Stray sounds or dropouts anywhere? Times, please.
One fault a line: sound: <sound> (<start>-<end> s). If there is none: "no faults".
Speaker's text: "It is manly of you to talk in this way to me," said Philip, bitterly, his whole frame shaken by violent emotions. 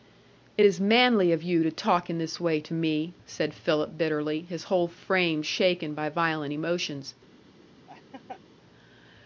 sound: laugh (7.9-8.4 s)